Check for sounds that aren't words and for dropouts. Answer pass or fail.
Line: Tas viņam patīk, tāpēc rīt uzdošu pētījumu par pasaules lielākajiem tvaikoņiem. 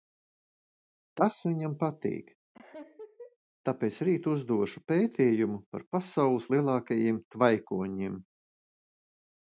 fail